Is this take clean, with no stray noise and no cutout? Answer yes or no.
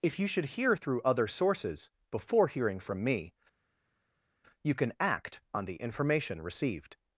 yes